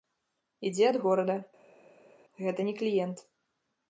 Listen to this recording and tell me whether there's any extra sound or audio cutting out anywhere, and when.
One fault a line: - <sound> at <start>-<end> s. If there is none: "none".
none